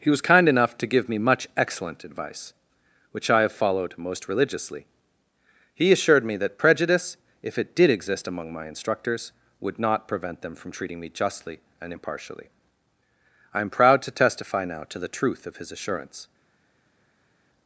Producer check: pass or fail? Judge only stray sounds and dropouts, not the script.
pass